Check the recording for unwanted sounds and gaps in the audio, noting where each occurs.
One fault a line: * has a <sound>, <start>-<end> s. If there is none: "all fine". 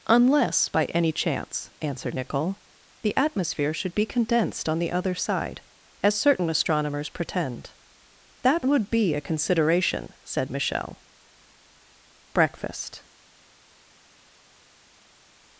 all fine